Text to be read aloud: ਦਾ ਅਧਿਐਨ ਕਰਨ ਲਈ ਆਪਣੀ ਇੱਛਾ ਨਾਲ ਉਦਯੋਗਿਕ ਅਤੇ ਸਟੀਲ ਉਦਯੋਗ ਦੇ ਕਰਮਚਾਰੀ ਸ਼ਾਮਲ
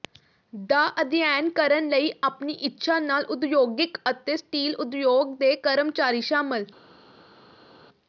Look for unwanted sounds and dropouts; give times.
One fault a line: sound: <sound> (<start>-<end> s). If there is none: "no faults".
no faults